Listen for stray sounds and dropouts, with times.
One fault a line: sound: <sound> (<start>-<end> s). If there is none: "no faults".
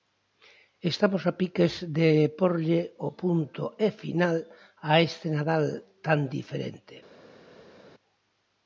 no faults